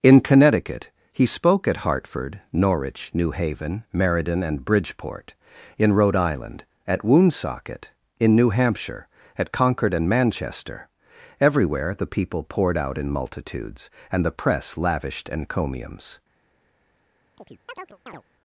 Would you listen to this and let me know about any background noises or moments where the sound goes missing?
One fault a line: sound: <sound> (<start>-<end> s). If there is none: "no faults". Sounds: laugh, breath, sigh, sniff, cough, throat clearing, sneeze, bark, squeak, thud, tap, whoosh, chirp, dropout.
sound: chirp (17.4-18.2 s)